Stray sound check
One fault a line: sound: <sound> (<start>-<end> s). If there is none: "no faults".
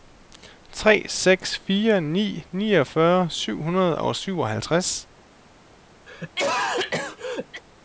sound: cough (6.1-7.6 s)